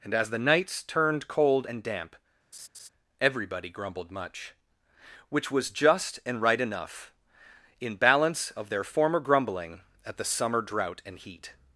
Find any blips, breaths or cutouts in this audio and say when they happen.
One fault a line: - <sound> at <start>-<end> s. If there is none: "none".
- laugh at 2.5-2.9 s